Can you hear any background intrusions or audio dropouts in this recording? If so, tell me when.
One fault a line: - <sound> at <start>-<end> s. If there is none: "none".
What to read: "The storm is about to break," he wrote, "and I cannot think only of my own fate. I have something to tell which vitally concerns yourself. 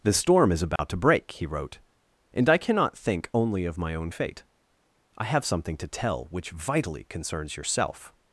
- dropout at 0.8-0.8 s